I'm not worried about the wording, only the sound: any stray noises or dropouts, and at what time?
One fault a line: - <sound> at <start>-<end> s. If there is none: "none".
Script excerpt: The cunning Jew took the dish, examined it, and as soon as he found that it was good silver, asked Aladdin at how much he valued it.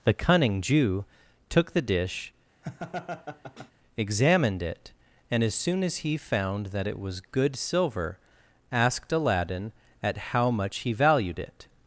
- laugh at 2.6-3.7 s